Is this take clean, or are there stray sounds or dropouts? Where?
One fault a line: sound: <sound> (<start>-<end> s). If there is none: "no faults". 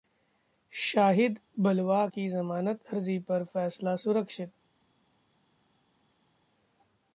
no faults